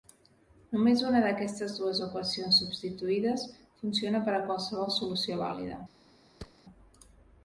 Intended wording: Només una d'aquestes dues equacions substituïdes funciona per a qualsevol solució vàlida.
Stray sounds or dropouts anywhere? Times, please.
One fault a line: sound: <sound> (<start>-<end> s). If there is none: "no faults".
sound: thud (6.4-6.6 s)